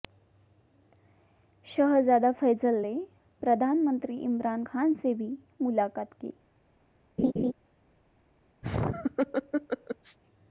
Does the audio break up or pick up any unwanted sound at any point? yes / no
yes